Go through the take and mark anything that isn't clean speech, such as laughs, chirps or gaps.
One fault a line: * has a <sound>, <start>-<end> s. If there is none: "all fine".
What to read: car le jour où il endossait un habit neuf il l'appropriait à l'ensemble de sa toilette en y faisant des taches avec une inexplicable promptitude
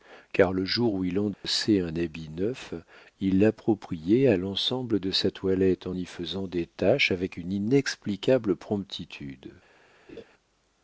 * has a dropout, 1.3-1.4 s
* has a laugh, 10.1-10.2 s